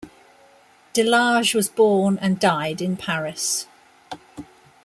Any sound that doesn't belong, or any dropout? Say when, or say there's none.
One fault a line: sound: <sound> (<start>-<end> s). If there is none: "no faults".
no faults